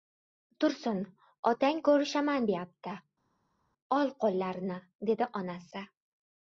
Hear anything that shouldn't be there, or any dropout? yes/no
no